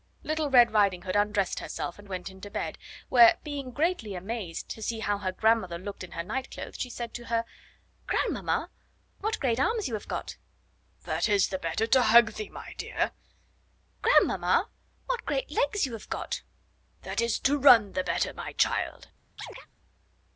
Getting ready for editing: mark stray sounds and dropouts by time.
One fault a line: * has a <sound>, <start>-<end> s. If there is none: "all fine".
* has a chirp, 19.4-19.7 s